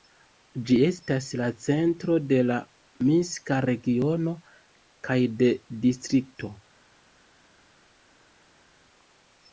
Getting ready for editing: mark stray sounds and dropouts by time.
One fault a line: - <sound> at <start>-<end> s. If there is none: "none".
none